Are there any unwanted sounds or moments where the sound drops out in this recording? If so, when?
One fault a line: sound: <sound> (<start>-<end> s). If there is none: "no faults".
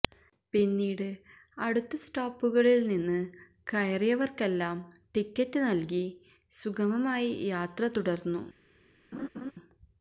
sound: laugh (9.1-9.5 s)